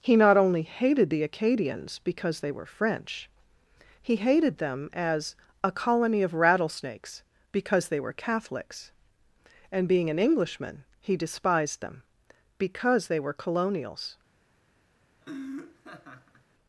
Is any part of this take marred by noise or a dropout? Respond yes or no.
yes